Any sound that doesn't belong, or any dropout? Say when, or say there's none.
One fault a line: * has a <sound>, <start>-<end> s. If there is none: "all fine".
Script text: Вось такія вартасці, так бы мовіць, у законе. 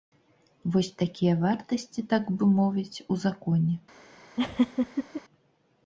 * has a laugh, 4.4-5.2 s